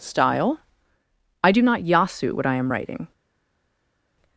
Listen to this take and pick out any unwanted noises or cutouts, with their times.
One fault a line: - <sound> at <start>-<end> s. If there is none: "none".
none